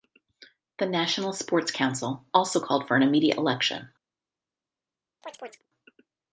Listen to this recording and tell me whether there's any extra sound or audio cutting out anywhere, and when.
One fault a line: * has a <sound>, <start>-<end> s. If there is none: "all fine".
* has a chirp, 5.2-5.7 s